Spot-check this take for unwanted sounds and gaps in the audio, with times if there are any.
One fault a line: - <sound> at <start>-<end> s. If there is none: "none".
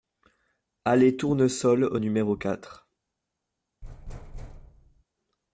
- thud at 3.8-5.0 s